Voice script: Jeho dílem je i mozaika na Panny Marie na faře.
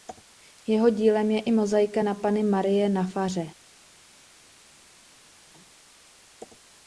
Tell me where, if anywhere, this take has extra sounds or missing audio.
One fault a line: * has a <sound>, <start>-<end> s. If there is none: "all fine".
all fine